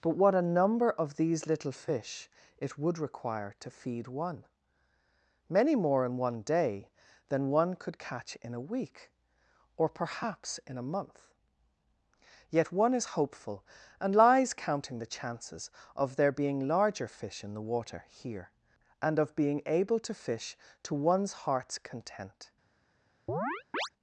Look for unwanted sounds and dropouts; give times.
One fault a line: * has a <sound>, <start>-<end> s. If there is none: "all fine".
* has a chirp, 23.3-23.9 s